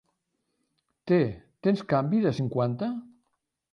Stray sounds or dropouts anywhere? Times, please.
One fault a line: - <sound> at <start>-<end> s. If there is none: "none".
none